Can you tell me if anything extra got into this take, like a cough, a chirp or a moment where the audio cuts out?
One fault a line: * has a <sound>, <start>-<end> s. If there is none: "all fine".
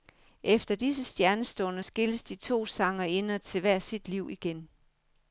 all fine